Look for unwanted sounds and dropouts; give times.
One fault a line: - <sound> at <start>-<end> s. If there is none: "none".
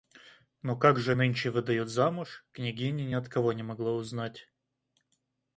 none